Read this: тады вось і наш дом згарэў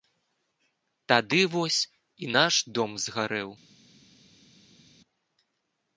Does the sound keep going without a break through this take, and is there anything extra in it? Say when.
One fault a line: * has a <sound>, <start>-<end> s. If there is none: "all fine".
all fine